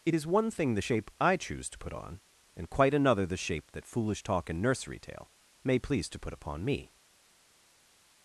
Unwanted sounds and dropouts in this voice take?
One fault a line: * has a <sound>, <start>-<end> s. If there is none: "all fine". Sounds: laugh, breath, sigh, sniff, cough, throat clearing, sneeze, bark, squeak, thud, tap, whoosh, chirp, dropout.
all fine